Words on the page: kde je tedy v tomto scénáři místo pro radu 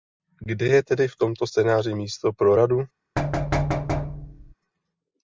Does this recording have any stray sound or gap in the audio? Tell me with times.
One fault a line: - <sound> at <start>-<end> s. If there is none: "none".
- thud at 3.2-4.5 s